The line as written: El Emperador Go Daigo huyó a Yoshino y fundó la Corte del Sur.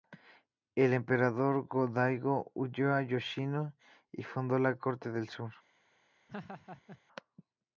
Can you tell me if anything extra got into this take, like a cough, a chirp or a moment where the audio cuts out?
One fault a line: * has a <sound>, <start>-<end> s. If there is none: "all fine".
* has a laugh, 6.3-7.0 s